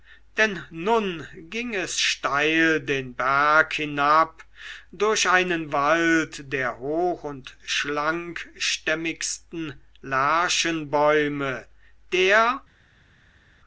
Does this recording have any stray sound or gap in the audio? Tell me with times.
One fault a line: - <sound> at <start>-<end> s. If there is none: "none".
none